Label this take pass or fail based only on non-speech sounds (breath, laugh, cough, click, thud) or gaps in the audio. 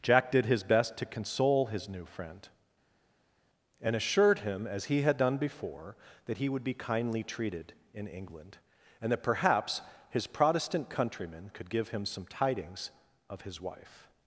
pass